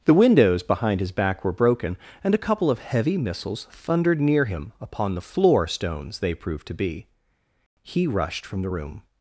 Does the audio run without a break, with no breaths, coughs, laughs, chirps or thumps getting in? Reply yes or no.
yes